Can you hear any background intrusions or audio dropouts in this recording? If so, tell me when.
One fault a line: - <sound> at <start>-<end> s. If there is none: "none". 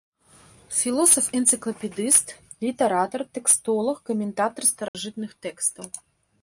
- dropout at 4.9-4.9 s